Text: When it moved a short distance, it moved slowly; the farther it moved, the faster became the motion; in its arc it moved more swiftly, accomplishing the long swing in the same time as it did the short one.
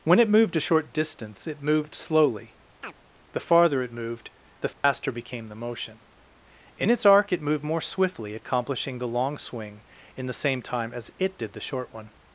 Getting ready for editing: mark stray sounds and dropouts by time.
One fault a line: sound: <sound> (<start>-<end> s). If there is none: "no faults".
sound: chirp (2.8-2.9 s)
sound: dropout (4.7-4.8 s)